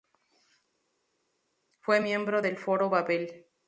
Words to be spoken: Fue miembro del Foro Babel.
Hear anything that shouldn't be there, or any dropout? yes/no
no